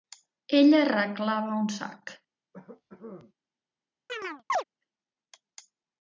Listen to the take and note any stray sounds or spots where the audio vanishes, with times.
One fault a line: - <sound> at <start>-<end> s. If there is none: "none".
- cough at 2.5-3.3 s
- chirp at 4.1-4.6 s